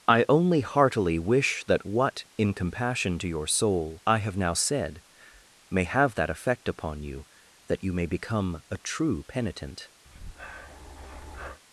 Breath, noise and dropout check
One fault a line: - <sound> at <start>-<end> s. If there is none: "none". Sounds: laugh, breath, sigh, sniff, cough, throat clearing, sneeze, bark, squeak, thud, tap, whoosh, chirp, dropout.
- breath at 10.0-11.6 s